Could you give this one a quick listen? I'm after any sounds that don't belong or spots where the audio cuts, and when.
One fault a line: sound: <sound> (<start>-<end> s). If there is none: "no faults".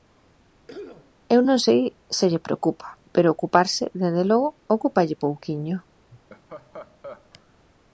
sound: cough (0.7-1.2 s)
sound: laugh (6.1-7.3 s)